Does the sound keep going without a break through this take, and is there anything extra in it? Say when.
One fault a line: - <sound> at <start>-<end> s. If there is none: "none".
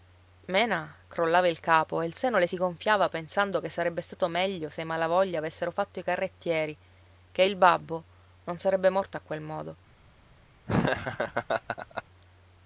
- laugh at 10.7-12.0 s